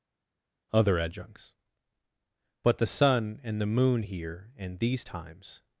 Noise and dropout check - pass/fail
pass